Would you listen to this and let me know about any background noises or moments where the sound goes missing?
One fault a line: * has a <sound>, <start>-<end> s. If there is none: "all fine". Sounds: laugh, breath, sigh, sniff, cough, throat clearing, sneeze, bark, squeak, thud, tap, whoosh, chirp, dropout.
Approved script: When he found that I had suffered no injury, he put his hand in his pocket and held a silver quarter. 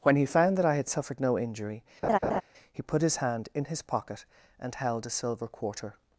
* has a laugh, 2.0-2.4 s